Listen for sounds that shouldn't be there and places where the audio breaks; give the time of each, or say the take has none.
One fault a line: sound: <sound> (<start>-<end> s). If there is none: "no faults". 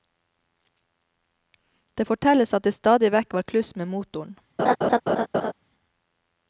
sound: laugh (4.6-5.5 s)